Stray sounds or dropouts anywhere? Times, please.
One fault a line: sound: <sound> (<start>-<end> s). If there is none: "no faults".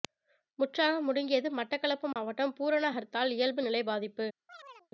sound: dropout (2.1-2.2 s)
sound: chirp (4.5-4.9 s)